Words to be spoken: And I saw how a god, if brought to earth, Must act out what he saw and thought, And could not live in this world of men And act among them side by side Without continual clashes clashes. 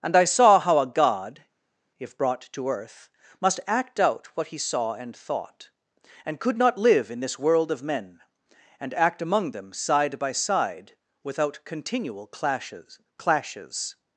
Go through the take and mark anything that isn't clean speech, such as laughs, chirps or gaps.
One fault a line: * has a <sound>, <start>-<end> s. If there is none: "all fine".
all fine